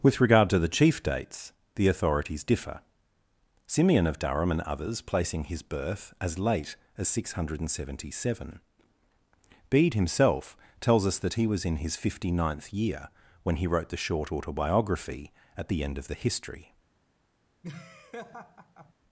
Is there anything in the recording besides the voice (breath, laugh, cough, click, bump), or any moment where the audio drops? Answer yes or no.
yes